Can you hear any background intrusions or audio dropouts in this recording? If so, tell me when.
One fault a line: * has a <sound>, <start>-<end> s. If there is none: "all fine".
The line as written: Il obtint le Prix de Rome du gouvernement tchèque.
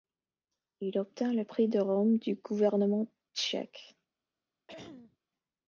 * has a throat clearing, 4.7-5.2 s